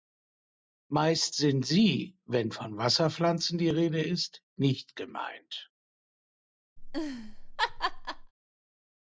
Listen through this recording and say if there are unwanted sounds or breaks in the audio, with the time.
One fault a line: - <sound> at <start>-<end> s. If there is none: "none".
- laugh at 6.8-8.3 s